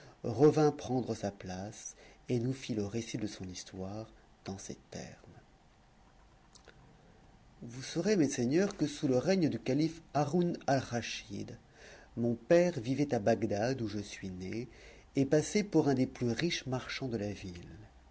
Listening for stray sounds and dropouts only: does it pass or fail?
pass